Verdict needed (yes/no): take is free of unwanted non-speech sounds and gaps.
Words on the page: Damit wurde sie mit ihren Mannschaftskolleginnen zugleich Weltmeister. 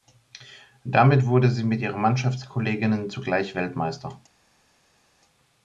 yes